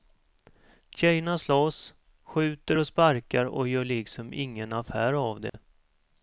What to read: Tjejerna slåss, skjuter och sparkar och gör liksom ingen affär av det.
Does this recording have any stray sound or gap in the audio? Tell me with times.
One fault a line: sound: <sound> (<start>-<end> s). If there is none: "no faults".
sound: dropout (5.5-5.5 s)